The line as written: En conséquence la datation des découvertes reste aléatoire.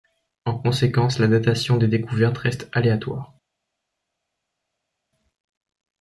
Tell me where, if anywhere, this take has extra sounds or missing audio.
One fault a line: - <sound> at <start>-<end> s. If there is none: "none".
none